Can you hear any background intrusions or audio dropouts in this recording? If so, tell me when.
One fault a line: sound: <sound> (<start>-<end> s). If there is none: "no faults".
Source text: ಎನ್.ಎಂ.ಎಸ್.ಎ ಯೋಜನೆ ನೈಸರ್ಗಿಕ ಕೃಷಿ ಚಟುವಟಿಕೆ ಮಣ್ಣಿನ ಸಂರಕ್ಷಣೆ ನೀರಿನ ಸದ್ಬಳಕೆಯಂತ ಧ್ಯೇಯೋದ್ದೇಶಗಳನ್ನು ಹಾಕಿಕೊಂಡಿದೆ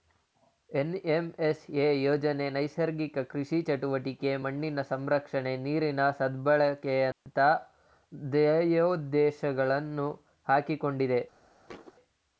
sound: dropout (7.1-7.3 s)
sound: thud (11.7-11.9 s)